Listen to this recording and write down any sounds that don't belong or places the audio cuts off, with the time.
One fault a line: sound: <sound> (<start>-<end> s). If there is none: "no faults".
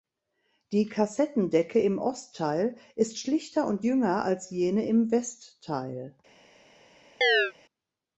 sound: chirp (7.2-7.5 s)